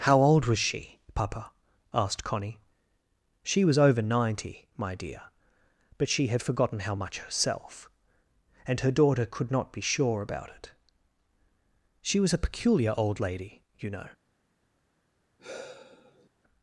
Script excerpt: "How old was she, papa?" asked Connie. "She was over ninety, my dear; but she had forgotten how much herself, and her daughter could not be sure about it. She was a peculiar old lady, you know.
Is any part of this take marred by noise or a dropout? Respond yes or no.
yes